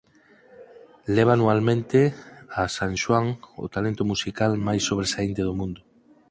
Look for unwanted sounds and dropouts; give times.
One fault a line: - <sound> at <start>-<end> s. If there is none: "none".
none